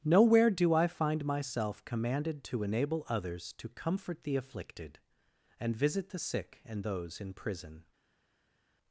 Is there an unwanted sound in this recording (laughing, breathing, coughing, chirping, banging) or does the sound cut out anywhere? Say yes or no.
no